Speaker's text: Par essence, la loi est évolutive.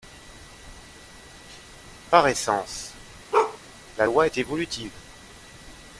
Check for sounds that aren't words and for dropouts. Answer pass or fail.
fail